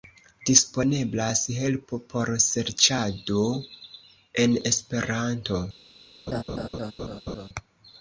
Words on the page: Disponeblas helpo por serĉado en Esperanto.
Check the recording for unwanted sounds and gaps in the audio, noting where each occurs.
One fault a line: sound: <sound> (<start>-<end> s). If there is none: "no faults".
sound: laugh (6.3-7.5 s)